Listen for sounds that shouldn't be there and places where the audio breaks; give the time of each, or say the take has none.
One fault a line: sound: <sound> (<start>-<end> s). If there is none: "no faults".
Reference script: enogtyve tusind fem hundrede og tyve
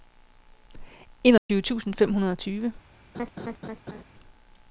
sound: dropout (1.4-1.5 s)
sound: laugh (3.1-4.0 s)